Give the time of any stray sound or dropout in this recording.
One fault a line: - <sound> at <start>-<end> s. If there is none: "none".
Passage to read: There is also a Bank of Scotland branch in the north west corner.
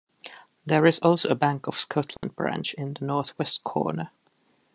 - dropout at 2.2-2.2 s